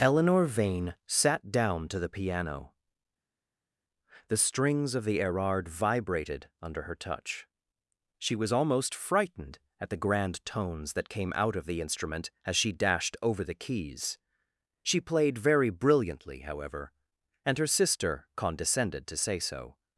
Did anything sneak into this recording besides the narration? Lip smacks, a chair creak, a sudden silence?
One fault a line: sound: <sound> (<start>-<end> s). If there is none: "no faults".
no faults